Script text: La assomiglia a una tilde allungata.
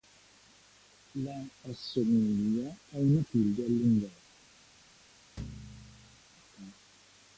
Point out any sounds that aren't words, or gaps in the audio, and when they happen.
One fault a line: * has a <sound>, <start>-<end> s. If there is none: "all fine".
* has a thud, 5.4-6.2 s